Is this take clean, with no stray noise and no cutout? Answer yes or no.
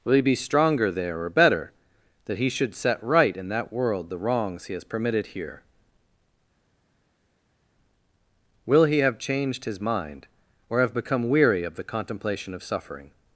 yes